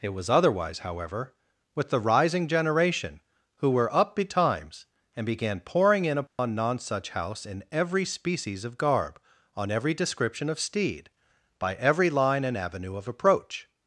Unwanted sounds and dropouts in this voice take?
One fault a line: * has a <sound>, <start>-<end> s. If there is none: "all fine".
* has a dropout, 6.3-6.4 s